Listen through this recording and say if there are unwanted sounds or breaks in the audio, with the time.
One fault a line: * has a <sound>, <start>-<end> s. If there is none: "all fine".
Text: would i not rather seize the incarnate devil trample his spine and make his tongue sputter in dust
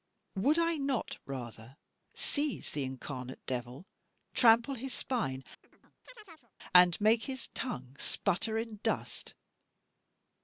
* has a chirp, 5.6-6.5 s